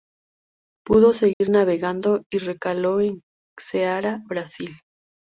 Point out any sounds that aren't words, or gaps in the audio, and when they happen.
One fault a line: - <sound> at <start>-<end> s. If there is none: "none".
- dropout at 1.3-1.4 s